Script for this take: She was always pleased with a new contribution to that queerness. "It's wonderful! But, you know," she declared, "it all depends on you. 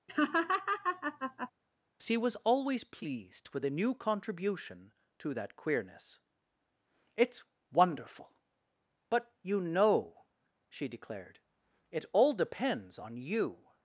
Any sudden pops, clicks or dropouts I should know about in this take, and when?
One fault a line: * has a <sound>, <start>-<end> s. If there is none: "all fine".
* has a laugh, 0.1-1.5 s